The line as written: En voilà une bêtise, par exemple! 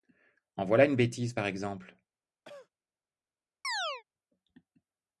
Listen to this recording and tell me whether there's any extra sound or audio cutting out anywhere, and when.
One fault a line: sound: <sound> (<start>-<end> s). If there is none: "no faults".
sound: cough (2.4-2.7 s)
sound: chirp (3.6-4.0 s)